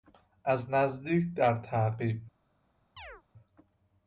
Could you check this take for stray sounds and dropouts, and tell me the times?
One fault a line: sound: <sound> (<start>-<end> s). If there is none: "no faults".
sound: chirp (3.0-3.2 s)